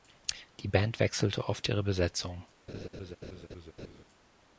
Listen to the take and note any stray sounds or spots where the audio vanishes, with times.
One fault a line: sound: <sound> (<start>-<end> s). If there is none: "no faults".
sound: laugh (2.7-4.0 s)